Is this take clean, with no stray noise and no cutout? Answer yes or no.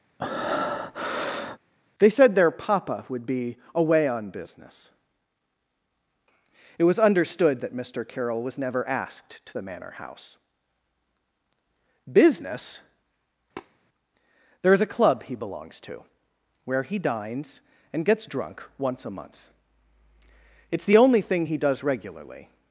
no